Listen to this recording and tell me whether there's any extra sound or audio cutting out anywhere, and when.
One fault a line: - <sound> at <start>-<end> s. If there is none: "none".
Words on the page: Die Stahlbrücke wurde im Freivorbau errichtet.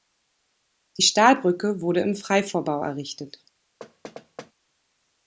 - thud at 3.8-4.5 s